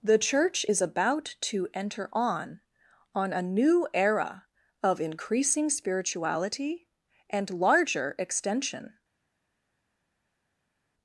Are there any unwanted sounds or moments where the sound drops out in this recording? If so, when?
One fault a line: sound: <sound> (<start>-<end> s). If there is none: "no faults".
no faults